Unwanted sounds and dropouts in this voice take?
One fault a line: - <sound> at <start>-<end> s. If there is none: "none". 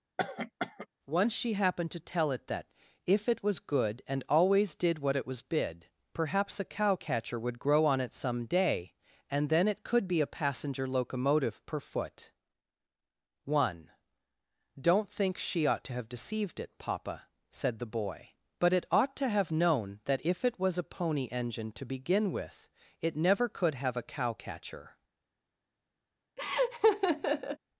- cough at 0.2-0.9 s
- laugh at 26.4-27.6 s